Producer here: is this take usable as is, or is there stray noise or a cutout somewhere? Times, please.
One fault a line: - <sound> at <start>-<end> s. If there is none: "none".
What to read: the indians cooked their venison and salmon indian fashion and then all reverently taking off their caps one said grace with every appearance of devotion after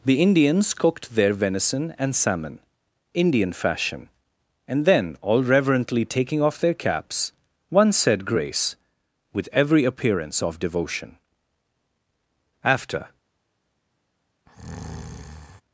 - breath at 14.5-15.6 s